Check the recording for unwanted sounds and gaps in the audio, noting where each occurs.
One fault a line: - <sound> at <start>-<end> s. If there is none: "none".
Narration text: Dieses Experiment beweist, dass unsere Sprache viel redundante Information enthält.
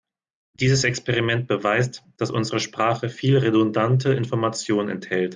none